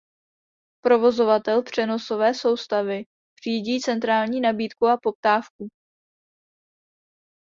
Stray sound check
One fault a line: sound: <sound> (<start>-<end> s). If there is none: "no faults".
no faults